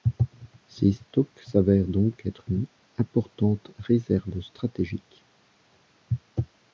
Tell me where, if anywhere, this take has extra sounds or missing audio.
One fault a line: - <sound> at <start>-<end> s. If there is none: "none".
none